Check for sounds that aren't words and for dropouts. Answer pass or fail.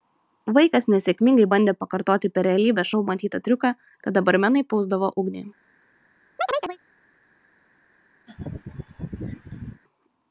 fail